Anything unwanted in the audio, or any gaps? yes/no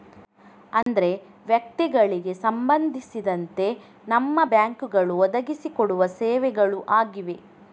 yes